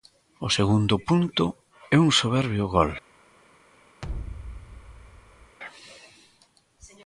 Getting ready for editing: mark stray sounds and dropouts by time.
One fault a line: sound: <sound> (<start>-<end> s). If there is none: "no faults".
sound: thud (4.0-5.6 s)